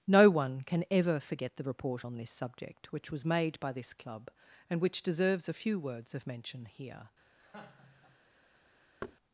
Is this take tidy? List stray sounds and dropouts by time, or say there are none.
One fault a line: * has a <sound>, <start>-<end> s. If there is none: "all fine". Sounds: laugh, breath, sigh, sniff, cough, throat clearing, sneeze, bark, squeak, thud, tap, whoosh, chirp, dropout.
* has a laugh, 7.4-8.2 s
* has a thud, 9.0-9.2 s